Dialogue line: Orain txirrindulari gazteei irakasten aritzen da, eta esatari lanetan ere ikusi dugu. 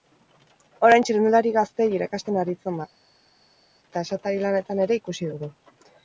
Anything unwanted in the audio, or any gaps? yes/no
no